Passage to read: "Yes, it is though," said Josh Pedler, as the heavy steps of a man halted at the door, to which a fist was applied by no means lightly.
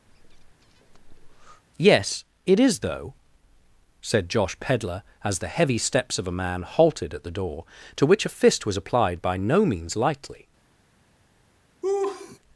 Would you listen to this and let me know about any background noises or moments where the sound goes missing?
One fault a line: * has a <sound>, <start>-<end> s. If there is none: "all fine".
* has a breath, 0.1-1.6 s
* has a laugh, 11.8-12.4 s